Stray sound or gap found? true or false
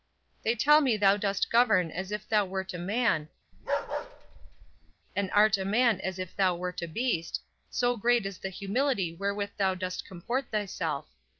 true